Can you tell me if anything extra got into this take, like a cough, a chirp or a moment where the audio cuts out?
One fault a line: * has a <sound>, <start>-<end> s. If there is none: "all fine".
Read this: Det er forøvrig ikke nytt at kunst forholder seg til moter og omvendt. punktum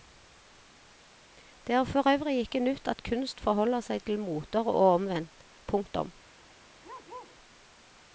* has a bark, 6.8-7.4 s